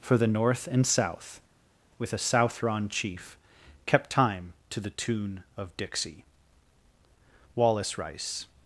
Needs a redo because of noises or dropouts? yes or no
no